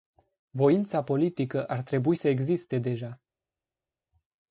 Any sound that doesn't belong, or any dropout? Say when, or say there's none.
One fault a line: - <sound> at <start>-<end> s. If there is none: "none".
none